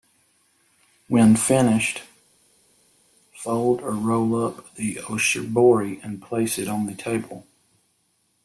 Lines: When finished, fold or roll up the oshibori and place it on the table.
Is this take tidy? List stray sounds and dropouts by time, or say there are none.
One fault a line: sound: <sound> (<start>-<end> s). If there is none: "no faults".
no faults